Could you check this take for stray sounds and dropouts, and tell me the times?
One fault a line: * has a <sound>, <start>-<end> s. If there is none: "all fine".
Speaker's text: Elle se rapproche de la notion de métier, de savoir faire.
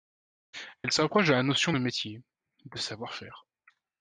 all fine